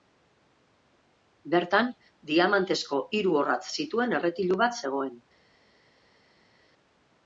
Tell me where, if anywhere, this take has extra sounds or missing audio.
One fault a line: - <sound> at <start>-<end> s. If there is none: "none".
none